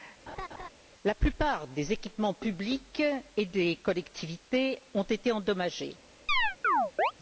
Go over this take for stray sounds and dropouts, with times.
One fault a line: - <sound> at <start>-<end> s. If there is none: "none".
- laugh at 0.3-0.7 s
- chirp at 6.3-7.1 s